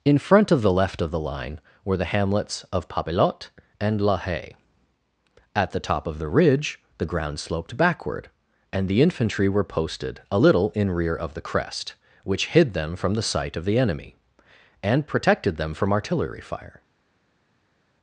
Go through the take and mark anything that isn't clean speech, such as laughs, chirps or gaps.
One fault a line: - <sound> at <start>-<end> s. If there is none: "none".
none